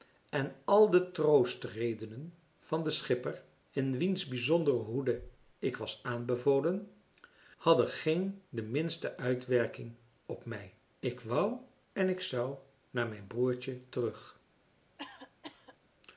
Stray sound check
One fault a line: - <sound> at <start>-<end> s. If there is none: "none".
- cough at 15.0-15.8 s